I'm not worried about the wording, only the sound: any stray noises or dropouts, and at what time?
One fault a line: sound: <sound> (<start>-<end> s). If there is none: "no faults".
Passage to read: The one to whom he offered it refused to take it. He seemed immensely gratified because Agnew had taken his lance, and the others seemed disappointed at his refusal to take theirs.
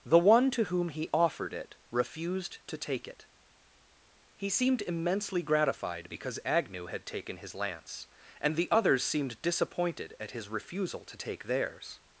no faults